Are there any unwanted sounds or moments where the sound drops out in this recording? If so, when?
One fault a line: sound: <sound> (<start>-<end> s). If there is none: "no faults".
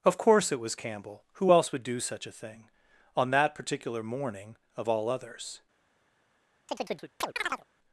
sound: chirp (6.7-7.6 s)